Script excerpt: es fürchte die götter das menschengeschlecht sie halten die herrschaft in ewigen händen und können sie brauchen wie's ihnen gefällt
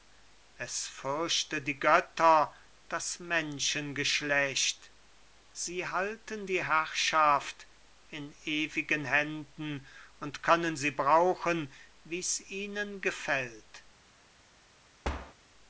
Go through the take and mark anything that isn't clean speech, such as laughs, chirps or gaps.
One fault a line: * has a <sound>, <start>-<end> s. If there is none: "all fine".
* has a thud, 15.0-15.3 s